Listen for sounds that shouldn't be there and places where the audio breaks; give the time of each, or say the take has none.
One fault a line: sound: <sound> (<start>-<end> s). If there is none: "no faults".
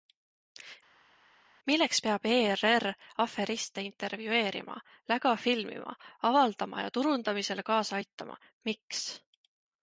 no faults